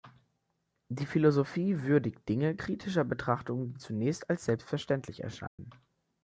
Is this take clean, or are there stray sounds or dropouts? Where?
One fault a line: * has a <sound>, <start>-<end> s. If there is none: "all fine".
* has a dropout, 5.5-5.6 s